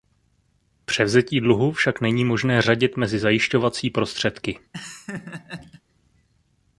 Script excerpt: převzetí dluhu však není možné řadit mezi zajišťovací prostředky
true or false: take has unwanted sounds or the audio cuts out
true